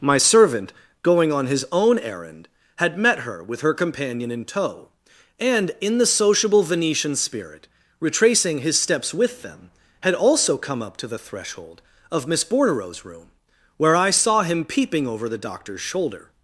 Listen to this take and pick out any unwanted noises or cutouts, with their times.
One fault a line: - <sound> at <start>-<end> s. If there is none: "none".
none